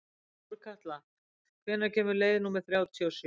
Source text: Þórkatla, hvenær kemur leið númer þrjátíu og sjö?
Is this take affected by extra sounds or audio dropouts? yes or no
no